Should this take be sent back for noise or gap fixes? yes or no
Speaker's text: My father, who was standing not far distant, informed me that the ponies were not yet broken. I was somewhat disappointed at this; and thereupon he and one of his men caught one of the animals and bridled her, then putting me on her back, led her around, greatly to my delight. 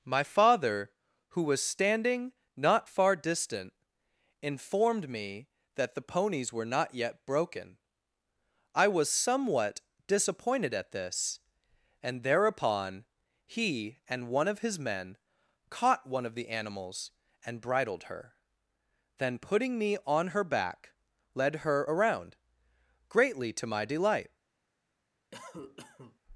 yes